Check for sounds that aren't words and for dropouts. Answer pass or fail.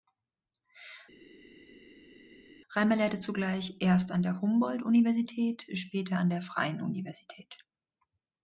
pass